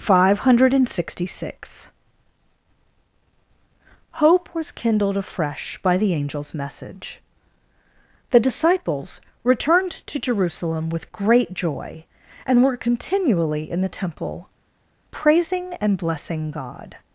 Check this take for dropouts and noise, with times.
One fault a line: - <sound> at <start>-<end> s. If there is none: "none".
none